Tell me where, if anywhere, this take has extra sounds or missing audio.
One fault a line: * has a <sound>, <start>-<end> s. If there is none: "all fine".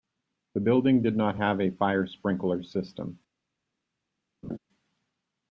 * has a laugh, 4.4-4.6 s